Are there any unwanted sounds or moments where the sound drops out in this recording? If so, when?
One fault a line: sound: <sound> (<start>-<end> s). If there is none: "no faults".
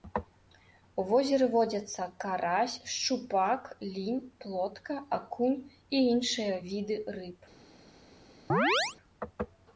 sound: chirp (8.5-9.0 s)